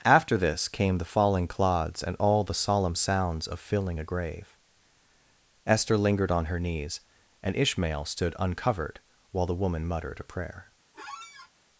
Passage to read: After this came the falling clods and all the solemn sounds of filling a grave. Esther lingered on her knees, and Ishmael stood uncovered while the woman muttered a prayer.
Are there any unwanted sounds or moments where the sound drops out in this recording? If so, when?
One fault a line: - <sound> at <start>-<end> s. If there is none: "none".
- squeak at 10.9-11.5 s